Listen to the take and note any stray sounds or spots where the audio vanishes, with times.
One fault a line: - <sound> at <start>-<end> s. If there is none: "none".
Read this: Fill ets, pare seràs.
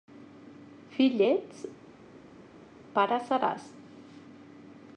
none